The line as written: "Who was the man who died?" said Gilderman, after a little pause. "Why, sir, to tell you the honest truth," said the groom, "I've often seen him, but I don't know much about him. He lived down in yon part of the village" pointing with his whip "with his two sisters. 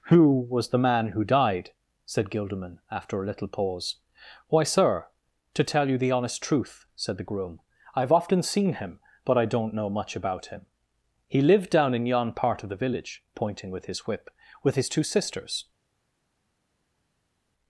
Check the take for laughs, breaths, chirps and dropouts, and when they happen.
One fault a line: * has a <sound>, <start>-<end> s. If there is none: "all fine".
all fine